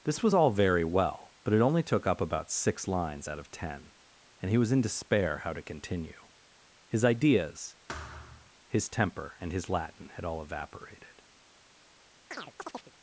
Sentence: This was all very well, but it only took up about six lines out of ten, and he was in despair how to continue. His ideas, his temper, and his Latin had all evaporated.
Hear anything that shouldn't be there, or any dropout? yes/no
yes